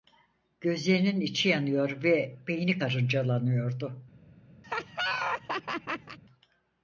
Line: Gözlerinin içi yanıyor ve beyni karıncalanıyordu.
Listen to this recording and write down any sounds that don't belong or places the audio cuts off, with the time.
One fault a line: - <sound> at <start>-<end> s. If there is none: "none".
- laugh at 4.6-6.2 s